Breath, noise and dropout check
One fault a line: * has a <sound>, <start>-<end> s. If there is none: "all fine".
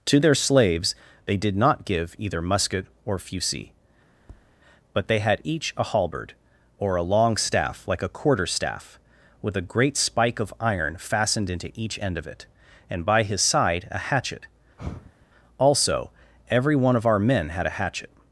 * has a tap, 4.2-4.6 s
* has a sigh, 14.8-15.3 s